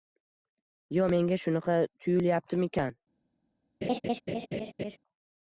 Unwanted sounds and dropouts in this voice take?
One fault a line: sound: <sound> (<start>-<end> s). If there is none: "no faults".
sound: laugh (3.8-5.0 s)